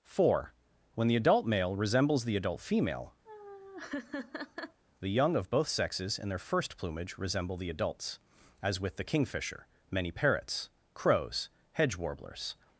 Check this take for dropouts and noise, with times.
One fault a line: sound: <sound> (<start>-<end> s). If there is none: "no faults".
sound: laugh (3.3-4.8 s)